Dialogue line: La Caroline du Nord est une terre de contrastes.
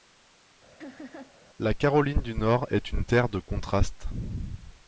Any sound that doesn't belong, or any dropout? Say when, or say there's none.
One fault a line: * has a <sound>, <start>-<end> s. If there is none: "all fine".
* has a laugh, 0.8-1.4 s